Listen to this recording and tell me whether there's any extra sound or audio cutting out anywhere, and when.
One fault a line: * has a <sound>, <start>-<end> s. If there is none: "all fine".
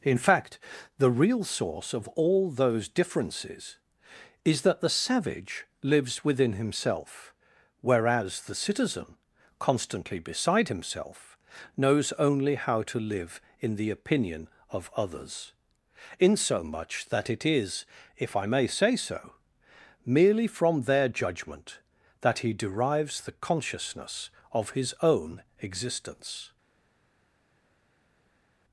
all fine